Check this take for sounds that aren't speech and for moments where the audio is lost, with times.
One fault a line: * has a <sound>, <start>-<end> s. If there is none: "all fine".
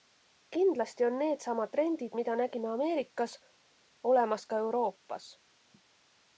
all fine